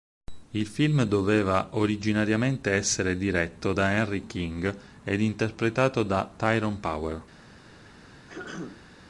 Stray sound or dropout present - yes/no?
yes